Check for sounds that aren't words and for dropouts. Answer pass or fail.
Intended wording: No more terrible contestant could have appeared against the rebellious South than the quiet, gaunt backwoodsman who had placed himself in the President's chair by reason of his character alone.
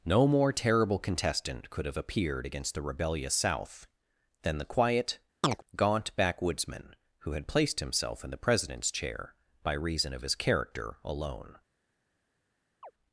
fail